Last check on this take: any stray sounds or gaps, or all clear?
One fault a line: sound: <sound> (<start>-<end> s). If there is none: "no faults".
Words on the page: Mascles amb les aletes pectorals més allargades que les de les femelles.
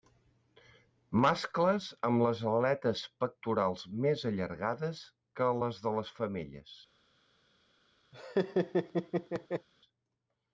sound: laugh (8.1-9.7 s)